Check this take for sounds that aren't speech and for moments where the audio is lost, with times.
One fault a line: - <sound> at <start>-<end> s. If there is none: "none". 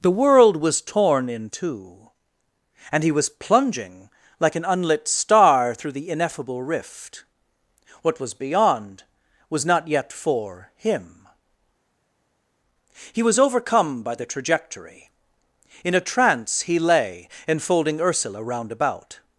none